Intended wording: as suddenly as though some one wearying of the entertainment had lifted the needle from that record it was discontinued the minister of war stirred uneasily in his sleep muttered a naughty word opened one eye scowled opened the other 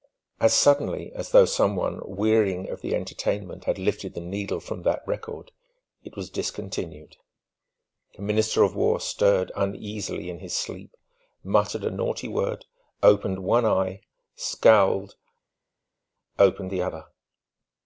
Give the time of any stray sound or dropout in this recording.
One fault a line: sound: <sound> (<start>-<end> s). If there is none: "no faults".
no faults